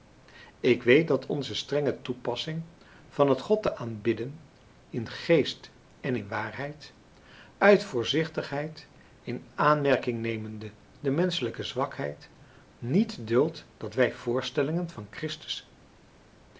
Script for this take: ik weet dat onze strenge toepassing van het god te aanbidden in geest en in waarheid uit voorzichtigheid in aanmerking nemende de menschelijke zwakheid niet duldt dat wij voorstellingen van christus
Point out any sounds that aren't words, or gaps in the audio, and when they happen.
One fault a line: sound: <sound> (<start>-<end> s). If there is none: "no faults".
no faults